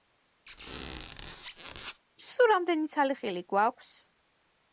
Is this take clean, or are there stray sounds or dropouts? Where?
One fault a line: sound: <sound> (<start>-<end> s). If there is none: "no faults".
sound: squeak (0.5-2.0 s)